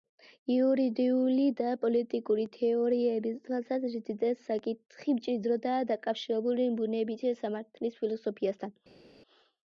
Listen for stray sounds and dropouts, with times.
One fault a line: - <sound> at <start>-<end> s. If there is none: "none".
none